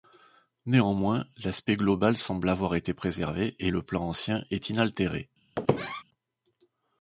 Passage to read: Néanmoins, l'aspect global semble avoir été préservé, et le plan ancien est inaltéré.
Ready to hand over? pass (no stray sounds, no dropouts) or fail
fail